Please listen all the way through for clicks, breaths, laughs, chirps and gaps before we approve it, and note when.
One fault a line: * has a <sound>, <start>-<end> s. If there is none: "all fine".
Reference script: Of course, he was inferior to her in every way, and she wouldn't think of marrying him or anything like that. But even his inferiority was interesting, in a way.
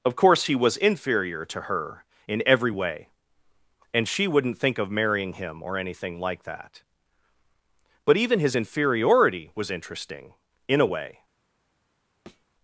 * has a thud, 12.3-12.5 s